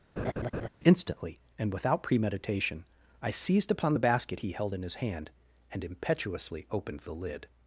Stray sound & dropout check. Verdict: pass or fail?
fail